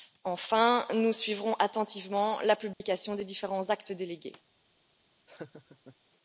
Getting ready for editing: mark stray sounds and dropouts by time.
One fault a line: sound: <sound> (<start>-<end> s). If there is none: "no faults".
sound: dropout (2.7-2.8 s)
sound: laugh (5.3-6.0 s)